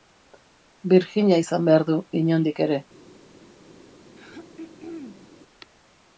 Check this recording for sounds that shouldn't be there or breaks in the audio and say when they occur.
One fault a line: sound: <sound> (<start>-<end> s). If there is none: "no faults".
sound: throat clearing (4.1-5.3 s)